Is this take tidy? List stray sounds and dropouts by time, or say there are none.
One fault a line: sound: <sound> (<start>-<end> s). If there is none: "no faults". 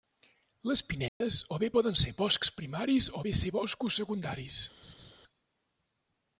sound: dropout (1.1-1.2 s)
sound: laugh (4.8-5.1 s)